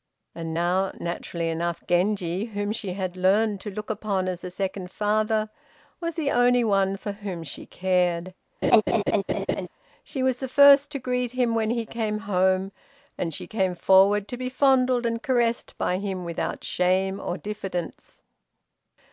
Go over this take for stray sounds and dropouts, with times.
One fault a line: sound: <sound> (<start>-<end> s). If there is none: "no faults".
sound: laugh (8.6-9.7 s)